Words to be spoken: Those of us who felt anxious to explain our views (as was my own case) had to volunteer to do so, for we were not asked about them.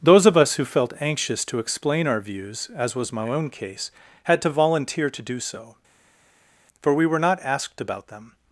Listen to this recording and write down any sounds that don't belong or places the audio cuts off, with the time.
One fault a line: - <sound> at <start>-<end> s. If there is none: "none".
none